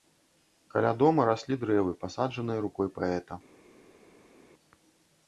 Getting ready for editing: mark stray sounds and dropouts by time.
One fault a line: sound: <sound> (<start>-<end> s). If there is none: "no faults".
no faults